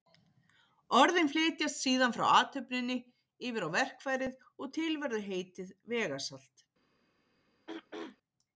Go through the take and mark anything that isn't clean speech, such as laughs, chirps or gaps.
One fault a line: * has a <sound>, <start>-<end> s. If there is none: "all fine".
* has a throat clearing, 7.7-8.2 s